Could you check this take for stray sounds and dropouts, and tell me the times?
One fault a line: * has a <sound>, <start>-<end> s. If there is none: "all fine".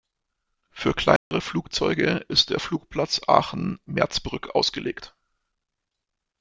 * has a dropout, 1.2-1.3 s